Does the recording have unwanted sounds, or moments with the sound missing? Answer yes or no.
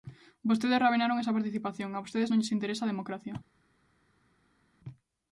no